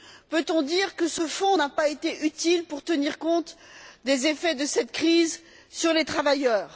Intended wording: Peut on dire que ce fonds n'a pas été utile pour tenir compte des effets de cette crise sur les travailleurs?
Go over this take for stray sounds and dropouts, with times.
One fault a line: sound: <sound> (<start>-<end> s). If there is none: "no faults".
no faults